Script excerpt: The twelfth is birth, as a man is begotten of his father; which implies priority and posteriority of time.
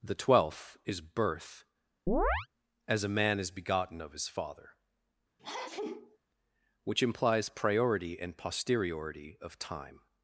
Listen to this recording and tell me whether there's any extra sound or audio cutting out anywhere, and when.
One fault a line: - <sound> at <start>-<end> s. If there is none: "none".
- chirp at 2.1-2.5 s
- sneeze at 5.4-6.2 s